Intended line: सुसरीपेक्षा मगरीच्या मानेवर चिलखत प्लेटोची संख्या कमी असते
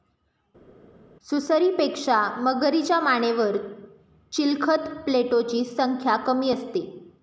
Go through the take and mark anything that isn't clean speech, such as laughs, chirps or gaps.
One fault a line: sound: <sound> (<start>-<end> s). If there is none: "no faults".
no faults